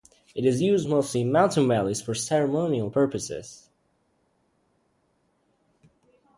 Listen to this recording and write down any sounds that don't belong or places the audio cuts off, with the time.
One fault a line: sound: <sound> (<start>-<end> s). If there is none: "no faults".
no faults